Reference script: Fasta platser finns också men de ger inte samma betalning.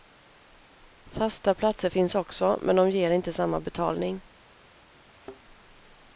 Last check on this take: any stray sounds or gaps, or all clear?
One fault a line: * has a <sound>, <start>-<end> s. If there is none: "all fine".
* has a thud, 5.1-5.4 s